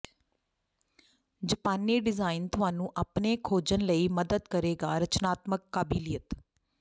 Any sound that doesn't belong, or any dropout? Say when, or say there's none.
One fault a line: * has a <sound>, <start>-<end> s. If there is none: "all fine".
all fine